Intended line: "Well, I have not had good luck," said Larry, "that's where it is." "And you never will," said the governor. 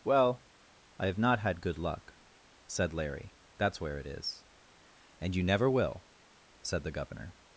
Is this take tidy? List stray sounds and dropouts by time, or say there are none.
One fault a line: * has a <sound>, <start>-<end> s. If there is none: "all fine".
all fine